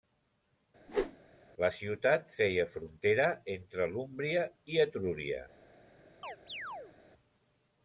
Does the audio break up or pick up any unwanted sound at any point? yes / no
yes